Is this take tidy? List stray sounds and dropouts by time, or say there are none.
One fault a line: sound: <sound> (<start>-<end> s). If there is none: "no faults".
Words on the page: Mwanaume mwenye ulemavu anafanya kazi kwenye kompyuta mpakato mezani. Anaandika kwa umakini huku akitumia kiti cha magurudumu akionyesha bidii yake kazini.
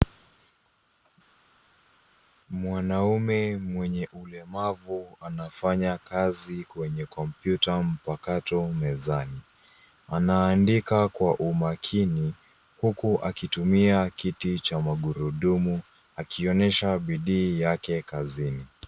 no faults